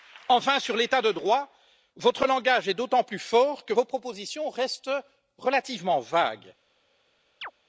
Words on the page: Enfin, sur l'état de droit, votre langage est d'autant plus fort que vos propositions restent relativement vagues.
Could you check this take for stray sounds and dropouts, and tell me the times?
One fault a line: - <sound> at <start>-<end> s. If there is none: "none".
- chirp at 7.4-7.5 s